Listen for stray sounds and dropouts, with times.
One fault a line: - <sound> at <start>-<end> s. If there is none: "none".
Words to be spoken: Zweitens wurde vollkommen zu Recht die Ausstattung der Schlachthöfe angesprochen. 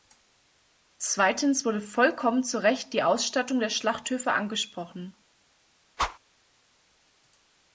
- whoosh at 6.0-6.2 s